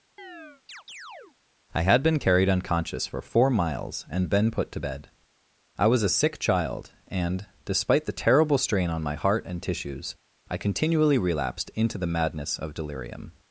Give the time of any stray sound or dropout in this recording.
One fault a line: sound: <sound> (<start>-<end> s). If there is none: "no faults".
sound: chirp (0.2-1.4 s)